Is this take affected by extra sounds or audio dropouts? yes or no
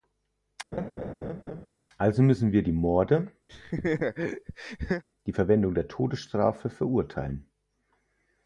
yes